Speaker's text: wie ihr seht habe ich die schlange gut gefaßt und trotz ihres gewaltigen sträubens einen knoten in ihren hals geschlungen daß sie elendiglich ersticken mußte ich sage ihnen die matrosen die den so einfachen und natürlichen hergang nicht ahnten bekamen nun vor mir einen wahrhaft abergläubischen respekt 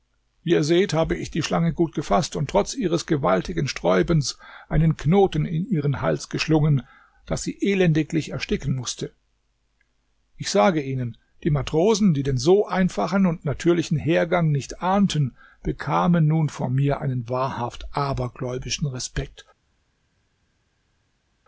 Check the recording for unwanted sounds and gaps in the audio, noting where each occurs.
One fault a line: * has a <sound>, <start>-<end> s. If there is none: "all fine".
all fine